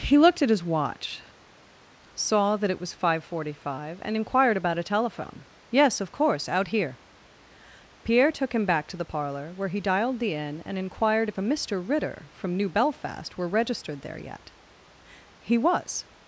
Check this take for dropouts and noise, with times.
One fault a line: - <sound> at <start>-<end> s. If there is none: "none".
none